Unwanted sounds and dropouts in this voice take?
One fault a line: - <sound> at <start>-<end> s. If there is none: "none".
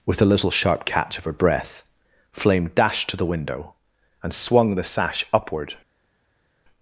none